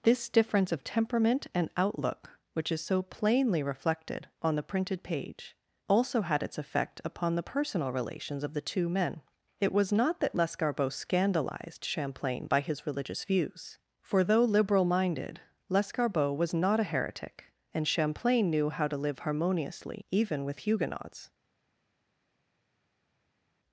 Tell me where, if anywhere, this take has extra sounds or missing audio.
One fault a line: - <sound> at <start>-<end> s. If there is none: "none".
none